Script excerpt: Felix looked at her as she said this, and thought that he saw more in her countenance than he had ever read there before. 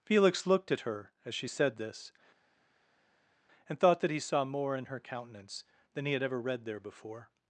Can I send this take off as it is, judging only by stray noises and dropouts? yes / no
yes